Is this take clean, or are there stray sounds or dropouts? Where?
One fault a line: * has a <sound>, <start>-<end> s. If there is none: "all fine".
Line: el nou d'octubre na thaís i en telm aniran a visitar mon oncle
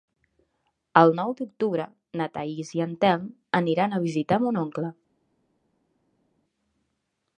all fine